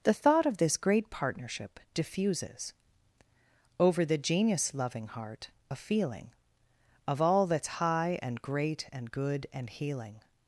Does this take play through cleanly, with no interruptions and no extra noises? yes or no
yes